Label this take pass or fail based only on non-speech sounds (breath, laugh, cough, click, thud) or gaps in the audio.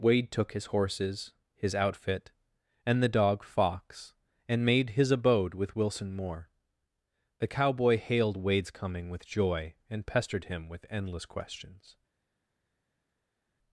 pass